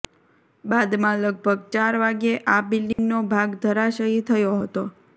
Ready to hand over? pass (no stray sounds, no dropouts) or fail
fail